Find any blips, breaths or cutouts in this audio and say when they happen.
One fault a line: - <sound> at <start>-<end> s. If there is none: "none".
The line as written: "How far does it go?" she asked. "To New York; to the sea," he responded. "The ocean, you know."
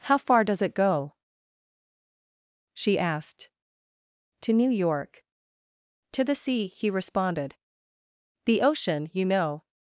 none